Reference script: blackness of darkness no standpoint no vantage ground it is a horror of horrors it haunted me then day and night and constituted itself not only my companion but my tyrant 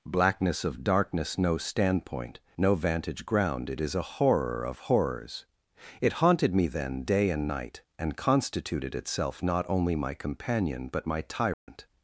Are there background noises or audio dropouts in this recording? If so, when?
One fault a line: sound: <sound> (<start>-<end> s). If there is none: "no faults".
sound: dropout (11.5-11.7 s)